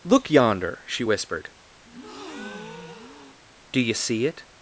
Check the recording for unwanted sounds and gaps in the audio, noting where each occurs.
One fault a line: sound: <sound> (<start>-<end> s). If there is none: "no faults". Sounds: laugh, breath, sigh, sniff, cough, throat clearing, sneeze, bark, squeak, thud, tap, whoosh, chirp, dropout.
sound: breath (1.8-3.4 s)